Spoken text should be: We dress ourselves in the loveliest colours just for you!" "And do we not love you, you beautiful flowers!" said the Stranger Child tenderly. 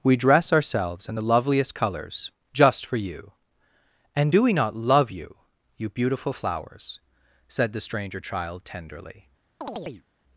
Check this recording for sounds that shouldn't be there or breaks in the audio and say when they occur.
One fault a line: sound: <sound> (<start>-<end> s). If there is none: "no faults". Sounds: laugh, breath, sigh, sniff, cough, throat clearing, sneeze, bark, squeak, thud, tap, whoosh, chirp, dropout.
sound: chirp (9.6-10.1 s)